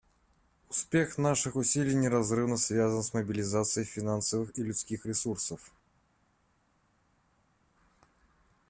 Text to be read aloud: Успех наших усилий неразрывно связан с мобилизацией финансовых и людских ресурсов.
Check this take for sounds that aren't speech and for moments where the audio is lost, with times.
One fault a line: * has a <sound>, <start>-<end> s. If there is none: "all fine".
all fine